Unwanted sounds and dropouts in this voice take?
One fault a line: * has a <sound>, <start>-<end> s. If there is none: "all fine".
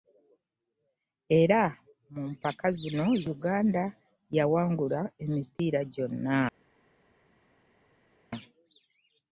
all fine